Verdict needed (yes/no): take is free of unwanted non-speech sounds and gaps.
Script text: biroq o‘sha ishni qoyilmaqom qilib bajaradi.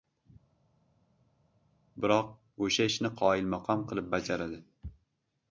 yes